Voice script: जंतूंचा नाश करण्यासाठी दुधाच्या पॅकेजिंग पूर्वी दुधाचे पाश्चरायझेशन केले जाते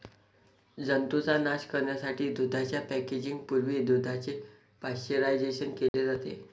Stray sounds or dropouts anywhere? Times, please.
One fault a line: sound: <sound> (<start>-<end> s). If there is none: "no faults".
sound: dropout (5.9-5.9 s)